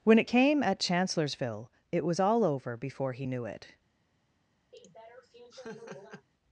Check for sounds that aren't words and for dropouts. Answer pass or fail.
fail